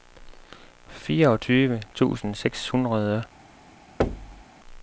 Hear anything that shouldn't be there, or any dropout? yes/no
yes